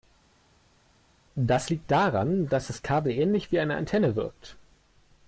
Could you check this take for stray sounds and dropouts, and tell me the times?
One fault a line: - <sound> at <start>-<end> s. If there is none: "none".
none